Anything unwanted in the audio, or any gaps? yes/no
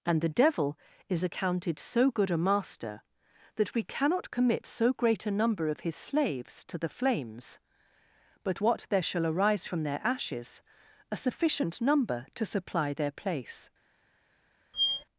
yes